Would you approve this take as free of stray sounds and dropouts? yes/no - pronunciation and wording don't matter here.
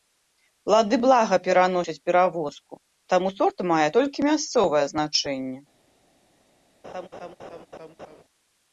no